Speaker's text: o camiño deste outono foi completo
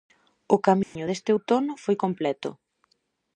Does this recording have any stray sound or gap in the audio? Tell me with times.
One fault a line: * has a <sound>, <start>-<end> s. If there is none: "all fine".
* has a dropout, 0.8-1.0 s